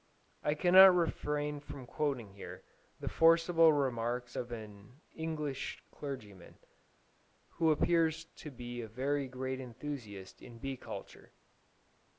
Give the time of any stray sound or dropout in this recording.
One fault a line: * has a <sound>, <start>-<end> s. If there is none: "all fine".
all fine